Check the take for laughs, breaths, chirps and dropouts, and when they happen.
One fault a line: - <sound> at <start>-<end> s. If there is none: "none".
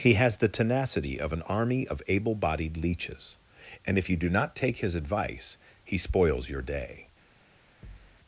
- thud at 7.8-8.2 s